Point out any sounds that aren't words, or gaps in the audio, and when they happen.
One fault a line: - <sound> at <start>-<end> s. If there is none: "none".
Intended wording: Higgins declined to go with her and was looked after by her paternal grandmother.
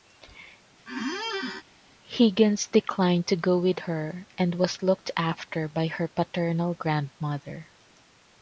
- squeak at 0.9-1.6 s